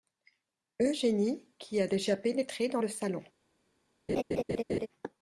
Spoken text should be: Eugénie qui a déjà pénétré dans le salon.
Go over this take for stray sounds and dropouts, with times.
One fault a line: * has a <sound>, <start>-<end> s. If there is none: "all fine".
* has a laugh, 4.1-4.9 s